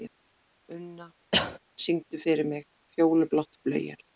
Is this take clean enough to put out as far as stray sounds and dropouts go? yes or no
no